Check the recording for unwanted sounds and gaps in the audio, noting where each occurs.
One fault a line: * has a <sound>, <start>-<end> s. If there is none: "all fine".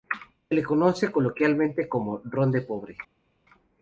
all fine